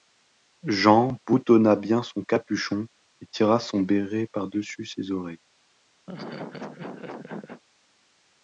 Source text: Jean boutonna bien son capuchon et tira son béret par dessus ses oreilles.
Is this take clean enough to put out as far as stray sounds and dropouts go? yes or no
no